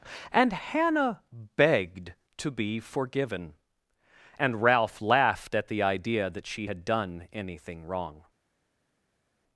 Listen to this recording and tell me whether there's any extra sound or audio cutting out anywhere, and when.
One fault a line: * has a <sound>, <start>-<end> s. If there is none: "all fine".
all fine